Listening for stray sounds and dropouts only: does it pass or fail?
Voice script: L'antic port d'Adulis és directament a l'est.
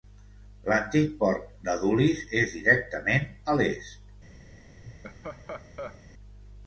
fail